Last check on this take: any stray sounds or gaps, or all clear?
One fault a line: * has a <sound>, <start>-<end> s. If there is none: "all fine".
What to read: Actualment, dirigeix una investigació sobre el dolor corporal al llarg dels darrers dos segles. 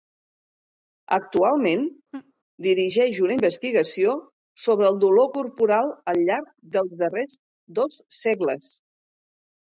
* has a laugh, 2.1-2.3 s